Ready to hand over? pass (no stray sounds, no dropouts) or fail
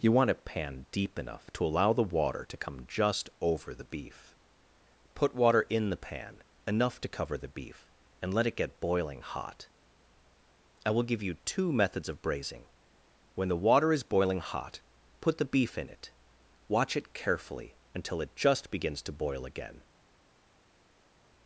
pass